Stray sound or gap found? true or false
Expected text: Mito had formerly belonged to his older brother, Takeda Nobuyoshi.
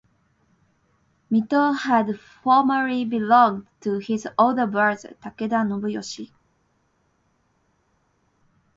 false